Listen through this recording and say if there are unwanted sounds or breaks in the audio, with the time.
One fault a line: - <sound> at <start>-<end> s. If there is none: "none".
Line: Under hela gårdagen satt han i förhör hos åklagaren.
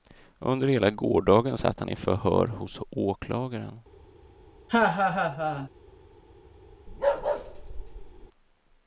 - laugh at 4.7-5.7 s
- bark at 6.9-8.3 s